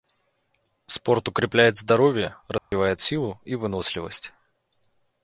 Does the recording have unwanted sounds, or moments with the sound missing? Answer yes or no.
yes